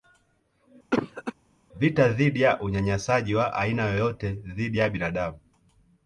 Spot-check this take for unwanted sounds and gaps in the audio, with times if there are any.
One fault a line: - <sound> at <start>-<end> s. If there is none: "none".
- cough at 0.9-1.3 s